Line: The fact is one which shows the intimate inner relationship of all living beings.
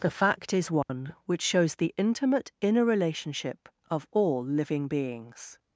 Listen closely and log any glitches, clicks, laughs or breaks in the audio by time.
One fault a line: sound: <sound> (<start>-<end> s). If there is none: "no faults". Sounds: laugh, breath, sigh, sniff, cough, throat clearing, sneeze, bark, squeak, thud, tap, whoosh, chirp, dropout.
sound: dropout (0.8-0.9 s)